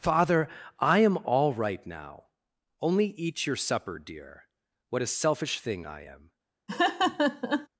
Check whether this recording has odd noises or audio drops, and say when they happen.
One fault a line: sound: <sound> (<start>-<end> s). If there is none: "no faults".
sound: laugh (6.7-7.7 s)